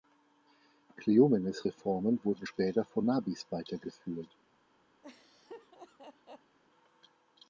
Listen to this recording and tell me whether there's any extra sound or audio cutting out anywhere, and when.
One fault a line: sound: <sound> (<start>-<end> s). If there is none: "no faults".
sound: laugh (5.0-6.6 s)